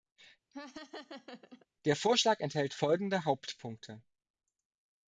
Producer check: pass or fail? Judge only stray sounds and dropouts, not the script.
fail